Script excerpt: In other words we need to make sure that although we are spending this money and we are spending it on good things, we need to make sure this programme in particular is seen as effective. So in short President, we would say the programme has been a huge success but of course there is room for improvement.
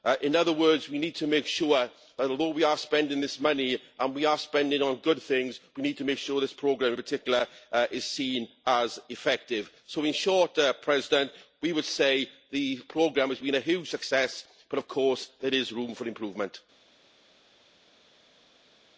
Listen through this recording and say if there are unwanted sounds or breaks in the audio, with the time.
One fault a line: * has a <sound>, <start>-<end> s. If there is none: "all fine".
all fine